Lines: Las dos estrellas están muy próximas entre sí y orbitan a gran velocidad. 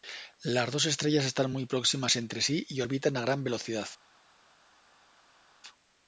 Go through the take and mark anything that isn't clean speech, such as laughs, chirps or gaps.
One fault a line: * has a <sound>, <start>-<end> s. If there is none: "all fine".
all fine